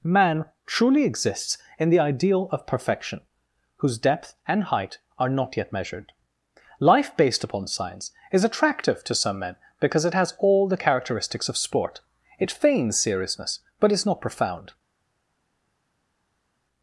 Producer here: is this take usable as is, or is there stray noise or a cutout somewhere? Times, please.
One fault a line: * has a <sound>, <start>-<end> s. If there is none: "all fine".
all fine